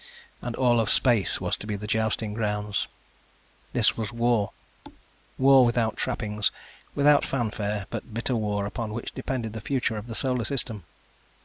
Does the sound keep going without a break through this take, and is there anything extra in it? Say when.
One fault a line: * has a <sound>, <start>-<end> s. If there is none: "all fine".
* has a thud, 4.8-5.0 s